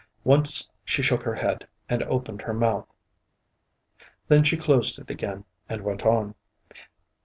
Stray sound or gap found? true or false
false